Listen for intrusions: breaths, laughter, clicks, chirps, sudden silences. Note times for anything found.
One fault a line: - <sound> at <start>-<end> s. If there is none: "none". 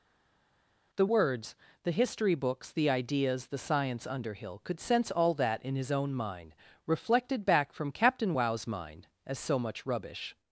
none